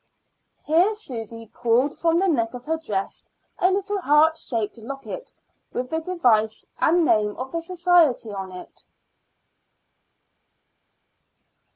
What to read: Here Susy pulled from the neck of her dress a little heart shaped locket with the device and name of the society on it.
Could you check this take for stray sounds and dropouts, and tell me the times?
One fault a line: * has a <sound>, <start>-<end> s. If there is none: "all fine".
all fine